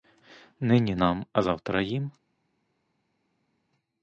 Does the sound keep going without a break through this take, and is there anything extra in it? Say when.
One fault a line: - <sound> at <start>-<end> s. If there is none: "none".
none